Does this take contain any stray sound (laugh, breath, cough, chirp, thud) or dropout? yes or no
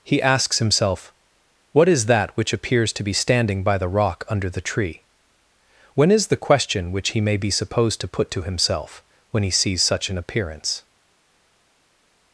no